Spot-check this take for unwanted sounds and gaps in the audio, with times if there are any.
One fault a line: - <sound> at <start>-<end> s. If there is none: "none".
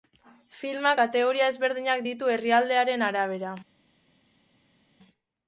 none